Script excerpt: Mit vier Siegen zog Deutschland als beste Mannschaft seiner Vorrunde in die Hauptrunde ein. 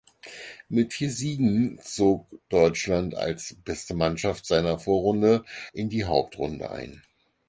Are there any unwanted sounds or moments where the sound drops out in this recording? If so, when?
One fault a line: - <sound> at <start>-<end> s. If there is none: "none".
none